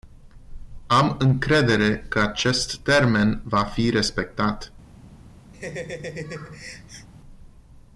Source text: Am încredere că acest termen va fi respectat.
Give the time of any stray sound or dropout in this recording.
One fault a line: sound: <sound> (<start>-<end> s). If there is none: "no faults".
sound: laugh (5.5-7.1 s)